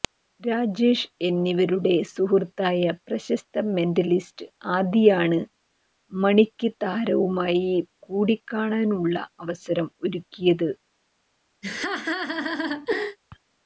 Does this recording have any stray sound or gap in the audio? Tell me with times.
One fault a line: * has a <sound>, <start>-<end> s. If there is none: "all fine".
* has a laugh, 11.6-13.2 s